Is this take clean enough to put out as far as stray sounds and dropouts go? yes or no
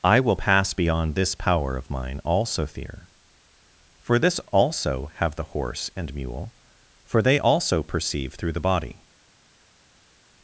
yes